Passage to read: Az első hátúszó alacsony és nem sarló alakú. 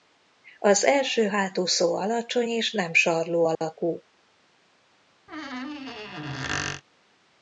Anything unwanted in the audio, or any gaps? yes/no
yes